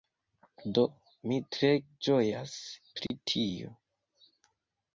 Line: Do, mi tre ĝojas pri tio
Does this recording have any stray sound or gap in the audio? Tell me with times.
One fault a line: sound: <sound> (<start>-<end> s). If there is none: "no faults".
sound: dropout (3.1-3.1 s)